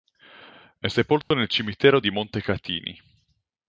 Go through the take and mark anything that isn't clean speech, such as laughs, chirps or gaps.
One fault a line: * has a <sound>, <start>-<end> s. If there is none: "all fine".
* has a dropout, 1.2-1.3 s